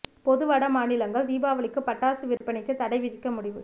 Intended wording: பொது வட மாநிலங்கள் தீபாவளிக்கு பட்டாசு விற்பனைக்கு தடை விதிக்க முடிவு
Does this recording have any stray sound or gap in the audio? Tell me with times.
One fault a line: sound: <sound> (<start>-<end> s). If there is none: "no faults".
sound: dropout (2.4-2.4 s)